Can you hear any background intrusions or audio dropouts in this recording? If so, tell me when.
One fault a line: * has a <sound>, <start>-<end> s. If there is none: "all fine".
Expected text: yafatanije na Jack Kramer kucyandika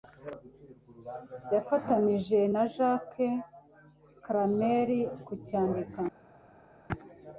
all fine